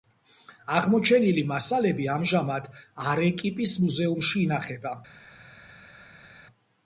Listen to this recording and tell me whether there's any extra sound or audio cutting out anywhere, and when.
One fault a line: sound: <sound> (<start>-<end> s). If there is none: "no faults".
no faults